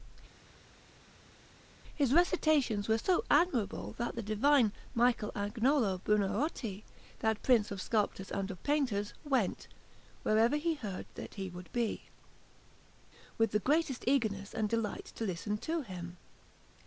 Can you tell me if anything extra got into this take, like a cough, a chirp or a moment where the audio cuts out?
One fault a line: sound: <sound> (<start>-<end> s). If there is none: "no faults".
no faults